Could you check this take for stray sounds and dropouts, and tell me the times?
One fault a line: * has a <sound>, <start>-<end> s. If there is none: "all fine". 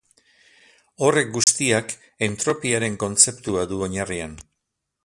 * has a dropout, 1.4-1.5 s